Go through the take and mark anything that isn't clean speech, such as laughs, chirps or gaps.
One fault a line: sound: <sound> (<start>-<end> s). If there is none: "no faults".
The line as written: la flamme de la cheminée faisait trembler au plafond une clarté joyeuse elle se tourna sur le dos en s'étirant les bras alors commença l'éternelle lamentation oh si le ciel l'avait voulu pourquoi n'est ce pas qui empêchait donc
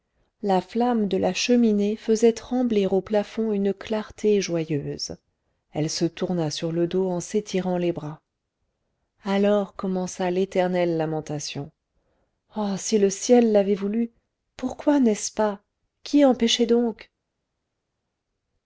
no faults